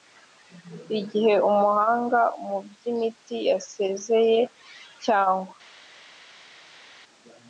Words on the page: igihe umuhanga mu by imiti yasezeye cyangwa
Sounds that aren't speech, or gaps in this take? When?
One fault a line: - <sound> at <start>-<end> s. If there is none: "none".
none